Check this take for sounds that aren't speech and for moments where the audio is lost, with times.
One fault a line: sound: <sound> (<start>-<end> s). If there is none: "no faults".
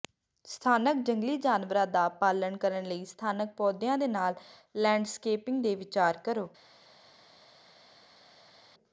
no faults